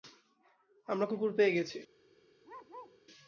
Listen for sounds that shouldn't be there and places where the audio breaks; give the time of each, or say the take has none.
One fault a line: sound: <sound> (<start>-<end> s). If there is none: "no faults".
sound: bark (2.4-3.0 s)